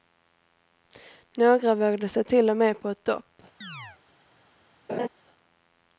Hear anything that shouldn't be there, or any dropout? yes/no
yes